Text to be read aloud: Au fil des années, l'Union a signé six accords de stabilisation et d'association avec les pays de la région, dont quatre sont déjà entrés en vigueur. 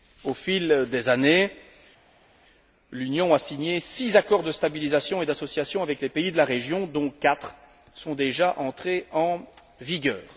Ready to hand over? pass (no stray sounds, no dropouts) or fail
pass